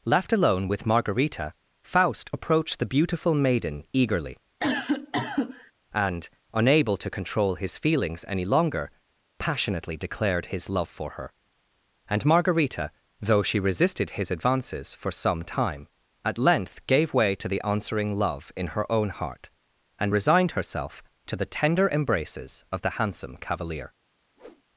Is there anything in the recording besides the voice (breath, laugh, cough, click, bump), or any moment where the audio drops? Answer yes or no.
yes